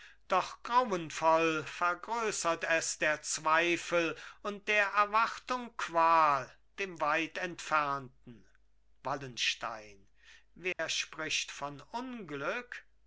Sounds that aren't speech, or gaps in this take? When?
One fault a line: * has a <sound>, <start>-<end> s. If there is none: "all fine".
* has a dropout, 10.7-10.8 s